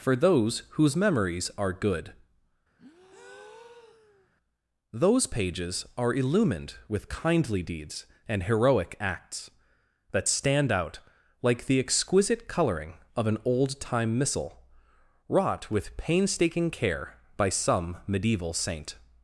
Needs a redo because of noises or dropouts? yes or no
yes